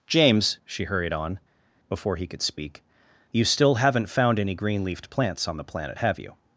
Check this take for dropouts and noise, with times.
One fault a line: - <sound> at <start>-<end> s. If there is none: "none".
none